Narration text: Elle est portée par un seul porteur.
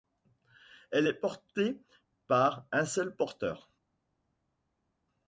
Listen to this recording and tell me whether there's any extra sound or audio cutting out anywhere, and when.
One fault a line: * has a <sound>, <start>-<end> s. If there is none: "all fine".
all fine